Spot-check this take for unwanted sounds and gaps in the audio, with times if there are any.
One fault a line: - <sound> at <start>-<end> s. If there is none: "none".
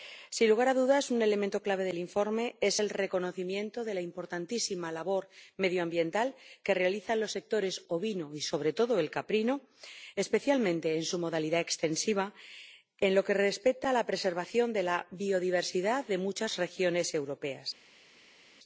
none